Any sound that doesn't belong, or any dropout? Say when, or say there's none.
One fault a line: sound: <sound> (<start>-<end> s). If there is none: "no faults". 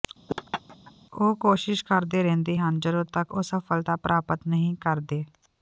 sound: laugh (0.3-0.9 s)